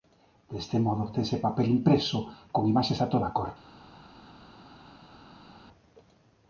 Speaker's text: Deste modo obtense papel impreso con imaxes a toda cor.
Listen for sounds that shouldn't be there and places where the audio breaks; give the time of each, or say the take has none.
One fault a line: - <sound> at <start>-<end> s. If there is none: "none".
none